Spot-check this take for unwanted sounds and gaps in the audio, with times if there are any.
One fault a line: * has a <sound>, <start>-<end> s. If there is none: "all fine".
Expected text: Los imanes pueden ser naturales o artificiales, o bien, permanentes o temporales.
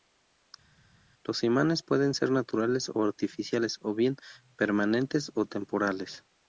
all fine